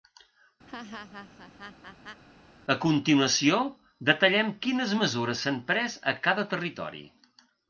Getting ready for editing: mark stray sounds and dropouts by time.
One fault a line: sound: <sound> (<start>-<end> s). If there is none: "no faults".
sound: laugh (0.7-2.2 s)